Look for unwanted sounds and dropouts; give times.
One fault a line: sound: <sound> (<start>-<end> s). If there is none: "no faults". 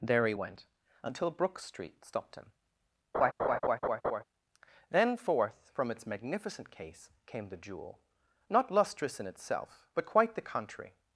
sound: laugh (3.1-4.2 s)